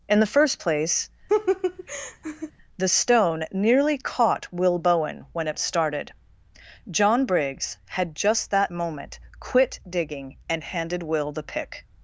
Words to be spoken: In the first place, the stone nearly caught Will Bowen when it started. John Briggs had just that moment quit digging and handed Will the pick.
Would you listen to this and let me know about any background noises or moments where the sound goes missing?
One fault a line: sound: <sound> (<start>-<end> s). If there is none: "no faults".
sound: laugh (1.3-2.5 s)